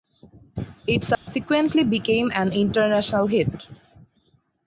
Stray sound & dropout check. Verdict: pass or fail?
fail